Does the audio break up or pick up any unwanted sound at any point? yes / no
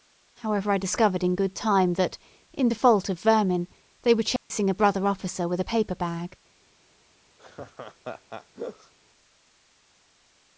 yes